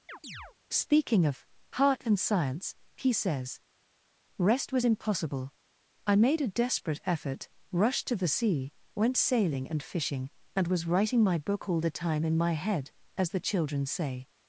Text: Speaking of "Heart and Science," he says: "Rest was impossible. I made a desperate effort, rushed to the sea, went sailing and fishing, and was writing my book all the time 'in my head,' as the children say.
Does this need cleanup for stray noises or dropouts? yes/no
yes